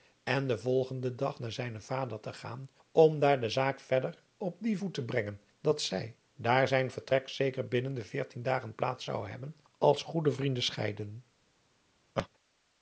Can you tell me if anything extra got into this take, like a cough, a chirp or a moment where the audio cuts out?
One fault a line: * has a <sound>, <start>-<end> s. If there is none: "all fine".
* has a laugh, 12.2-12.3 s